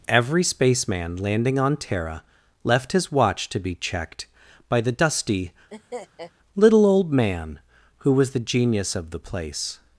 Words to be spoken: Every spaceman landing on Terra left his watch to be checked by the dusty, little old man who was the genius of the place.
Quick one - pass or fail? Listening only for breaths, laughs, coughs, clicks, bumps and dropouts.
fail